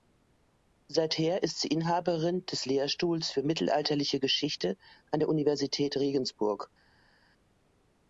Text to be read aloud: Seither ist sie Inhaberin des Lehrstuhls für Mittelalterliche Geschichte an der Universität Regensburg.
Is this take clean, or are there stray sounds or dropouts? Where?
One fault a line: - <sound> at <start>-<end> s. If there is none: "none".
none